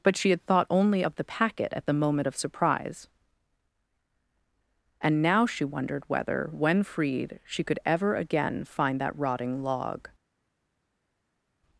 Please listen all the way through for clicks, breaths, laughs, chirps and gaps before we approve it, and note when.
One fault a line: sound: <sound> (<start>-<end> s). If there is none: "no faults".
no faults